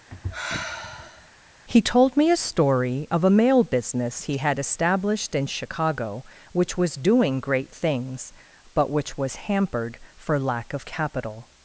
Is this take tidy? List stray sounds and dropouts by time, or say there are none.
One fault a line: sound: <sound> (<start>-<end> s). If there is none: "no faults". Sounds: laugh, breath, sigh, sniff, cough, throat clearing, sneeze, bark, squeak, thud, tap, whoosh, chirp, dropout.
sound: sigh (0.1-1.3 s)